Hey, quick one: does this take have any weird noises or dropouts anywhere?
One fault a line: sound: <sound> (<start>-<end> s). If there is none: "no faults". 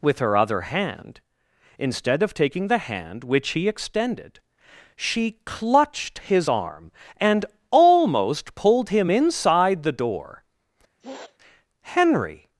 sound: sniff (11.0-11.4 s)